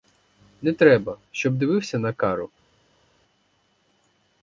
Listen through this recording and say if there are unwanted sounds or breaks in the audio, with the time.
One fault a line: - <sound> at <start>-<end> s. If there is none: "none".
none